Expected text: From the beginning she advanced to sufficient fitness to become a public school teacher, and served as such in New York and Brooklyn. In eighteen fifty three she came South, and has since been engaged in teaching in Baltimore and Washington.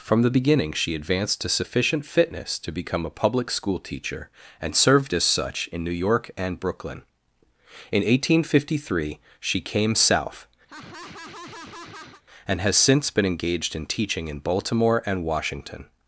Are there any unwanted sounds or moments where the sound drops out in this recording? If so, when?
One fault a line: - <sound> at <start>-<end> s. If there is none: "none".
- laugh at 10.7-12.2 s